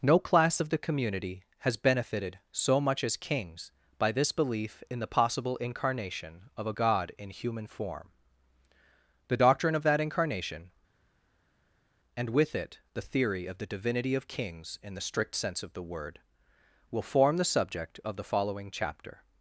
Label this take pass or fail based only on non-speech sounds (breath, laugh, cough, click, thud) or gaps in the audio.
pass